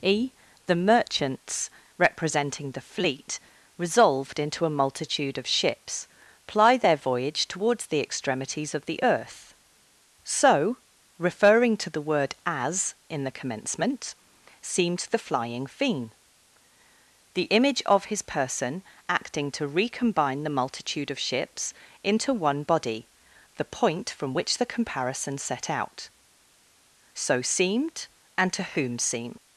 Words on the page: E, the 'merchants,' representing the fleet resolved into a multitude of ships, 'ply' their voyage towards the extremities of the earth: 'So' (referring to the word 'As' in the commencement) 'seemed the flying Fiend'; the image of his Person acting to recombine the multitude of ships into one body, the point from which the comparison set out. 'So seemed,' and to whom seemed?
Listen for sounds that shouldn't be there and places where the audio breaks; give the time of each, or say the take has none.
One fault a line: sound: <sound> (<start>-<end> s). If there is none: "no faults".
no faults